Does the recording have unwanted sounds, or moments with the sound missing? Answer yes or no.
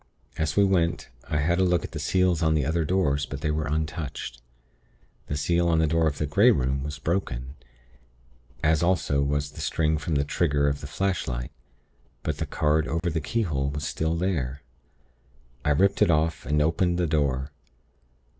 yes